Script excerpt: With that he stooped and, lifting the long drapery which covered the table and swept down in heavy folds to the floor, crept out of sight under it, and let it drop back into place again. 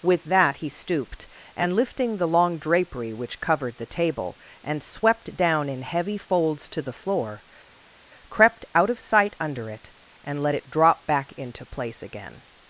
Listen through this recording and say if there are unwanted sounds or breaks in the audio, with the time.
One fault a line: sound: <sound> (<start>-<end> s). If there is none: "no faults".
no faults